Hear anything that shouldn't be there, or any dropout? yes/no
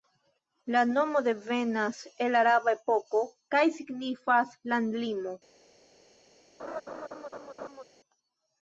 yes